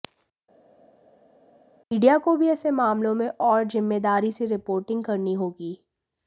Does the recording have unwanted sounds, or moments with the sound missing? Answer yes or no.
no